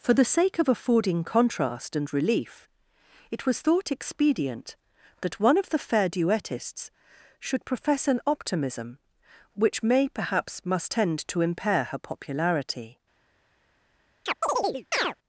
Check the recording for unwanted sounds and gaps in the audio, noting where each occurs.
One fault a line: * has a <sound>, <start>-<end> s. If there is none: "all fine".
* has a chirp, 14.3-15.1 s